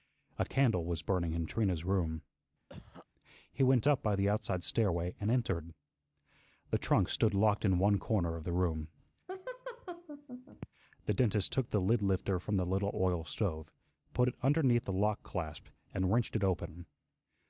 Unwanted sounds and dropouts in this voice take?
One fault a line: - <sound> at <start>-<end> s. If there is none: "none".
- cough at 2.7-3.1 s
- laugh at 9.3-10.7 s